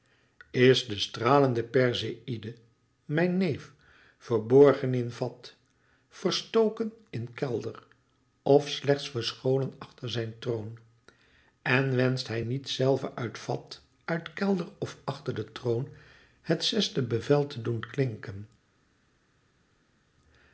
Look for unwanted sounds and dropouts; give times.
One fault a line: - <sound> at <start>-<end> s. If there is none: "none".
none